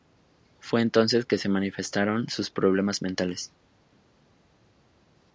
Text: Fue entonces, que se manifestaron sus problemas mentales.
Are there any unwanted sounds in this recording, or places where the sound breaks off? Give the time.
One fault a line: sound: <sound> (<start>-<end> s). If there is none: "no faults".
no faults